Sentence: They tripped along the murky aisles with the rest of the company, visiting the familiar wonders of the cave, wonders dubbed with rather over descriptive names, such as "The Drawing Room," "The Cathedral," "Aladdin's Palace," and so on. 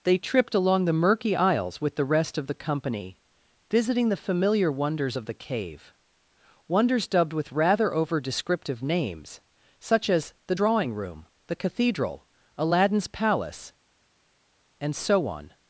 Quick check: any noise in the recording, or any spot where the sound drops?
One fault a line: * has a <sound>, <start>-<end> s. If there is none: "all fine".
all fine